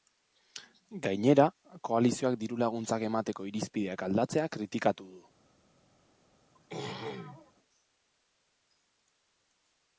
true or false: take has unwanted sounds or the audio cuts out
true